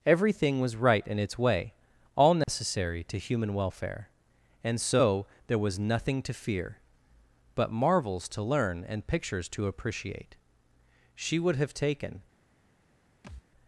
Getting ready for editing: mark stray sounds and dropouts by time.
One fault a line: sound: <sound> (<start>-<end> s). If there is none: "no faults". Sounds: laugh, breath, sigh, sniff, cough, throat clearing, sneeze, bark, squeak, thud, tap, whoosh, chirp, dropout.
sound: dropout (2.4-2.5 s)
sound: thud (13.2-13.4 s)